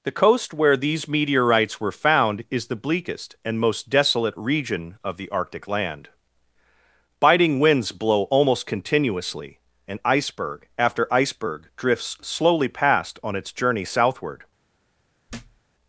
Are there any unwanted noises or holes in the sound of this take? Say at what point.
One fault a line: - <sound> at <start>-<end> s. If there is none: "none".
- thud at 15.3-15.6 s